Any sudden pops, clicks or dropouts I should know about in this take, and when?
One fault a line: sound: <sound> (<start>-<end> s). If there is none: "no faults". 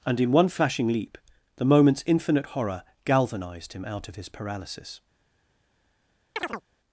sound: chirp (6.4-6.6 s)